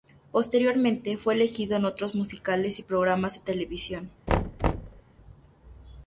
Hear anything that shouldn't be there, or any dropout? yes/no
yes